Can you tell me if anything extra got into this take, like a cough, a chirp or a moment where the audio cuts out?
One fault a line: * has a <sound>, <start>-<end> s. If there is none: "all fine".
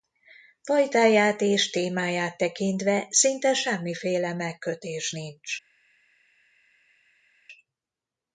all fine